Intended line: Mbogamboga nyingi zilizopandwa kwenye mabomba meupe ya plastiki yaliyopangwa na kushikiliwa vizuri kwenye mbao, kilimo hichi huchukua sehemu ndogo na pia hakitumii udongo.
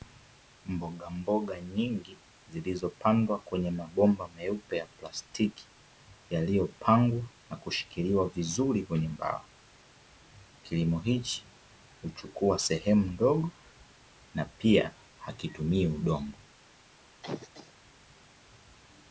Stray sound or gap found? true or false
true